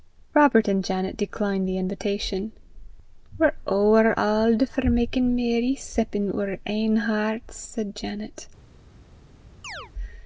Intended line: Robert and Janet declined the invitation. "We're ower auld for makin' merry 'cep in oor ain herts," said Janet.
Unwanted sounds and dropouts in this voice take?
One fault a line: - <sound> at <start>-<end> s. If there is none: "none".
- chirp at 9.6-9.9 s